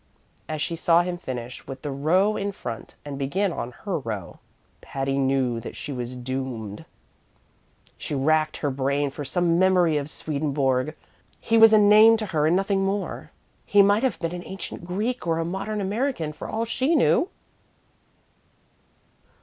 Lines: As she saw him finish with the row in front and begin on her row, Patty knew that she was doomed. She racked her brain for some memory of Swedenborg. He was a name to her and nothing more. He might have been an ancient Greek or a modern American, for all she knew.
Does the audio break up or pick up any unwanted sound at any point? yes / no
no